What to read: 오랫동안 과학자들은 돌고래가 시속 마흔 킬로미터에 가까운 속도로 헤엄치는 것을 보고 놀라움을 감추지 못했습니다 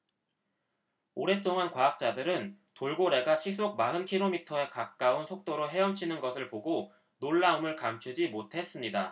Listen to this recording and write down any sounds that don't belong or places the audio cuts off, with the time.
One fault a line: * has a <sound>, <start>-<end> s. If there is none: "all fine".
all fine